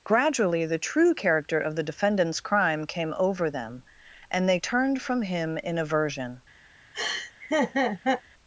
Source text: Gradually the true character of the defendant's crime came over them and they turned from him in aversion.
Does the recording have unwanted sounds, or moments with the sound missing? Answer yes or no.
yes